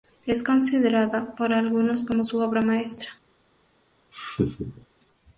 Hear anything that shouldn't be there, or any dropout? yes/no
yes